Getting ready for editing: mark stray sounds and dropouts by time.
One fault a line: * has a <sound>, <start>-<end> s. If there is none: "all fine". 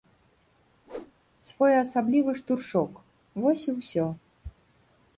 * has a whoosh, 0.9-1.1 s